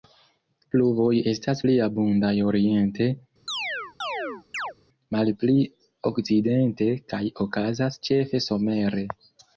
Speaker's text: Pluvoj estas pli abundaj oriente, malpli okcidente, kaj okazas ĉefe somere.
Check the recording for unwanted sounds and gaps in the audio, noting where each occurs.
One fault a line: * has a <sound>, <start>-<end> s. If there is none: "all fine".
* has a chirp, 3.5-4.7 s